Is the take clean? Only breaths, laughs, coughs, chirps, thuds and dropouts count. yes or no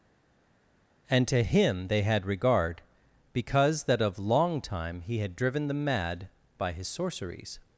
yes